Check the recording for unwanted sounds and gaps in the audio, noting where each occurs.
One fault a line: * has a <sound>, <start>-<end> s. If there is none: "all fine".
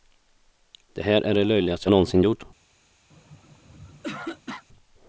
* has a throat clearing, 3.1-4.6 s